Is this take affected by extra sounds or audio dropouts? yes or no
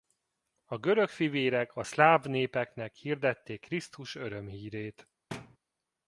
yes